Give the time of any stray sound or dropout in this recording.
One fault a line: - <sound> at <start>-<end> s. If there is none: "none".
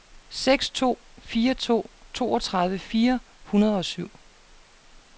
none